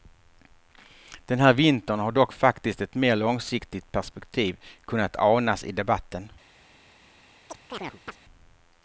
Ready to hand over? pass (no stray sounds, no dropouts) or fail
fail